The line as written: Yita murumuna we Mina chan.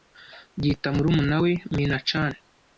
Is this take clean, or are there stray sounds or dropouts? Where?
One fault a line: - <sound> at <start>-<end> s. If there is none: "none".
none